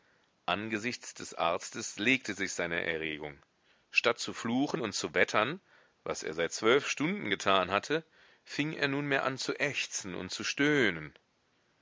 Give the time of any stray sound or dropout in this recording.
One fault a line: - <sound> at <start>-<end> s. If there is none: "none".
none